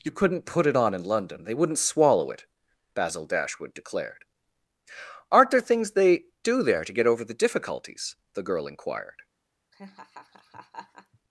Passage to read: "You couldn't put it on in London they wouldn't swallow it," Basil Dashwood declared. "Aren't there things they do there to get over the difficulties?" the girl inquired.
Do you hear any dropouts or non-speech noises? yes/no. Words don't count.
yes